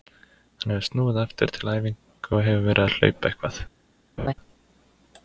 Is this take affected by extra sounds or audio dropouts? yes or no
yes